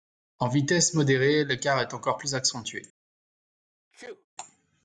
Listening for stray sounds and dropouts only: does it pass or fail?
fail